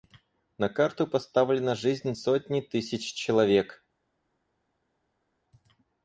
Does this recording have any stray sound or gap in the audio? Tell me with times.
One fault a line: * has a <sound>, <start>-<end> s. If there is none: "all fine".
all fine